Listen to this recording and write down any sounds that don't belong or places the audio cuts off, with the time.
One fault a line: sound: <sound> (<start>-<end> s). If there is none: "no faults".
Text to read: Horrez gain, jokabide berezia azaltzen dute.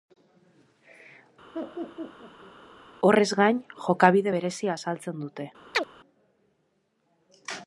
sound: laugh (1.5-2.5 s)
sound: chirp (5.7-5.9 s)